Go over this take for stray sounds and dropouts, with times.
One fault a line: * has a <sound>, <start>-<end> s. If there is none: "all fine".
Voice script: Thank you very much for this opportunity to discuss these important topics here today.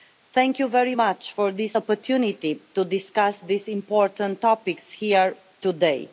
all fine